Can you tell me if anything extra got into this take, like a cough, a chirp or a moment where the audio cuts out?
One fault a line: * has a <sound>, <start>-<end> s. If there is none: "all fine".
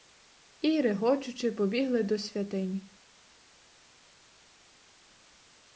all fine